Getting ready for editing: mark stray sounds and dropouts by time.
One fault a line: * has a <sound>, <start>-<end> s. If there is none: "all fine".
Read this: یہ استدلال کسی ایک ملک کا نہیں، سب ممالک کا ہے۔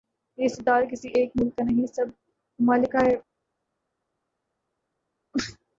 all fine